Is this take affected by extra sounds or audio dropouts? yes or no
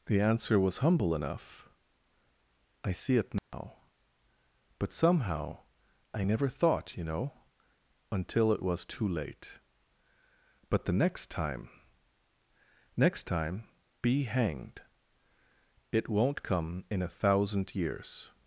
yes